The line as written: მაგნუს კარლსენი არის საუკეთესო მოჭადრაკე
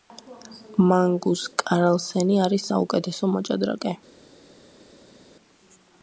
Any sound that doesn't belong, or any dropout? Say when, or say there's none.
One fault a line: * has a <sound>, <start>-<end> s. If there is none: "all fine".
all fine